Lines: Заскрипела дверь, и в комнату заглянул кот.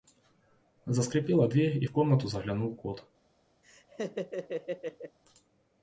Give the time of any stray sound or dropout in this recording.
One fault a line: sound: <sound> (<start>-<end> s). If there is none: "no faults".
sound: laugh (3.6-5.2 s)